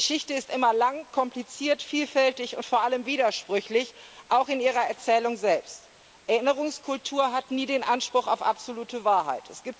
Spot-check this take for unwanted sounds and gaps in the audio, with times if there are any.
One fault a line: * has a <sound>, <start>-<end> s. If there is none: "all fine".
all fine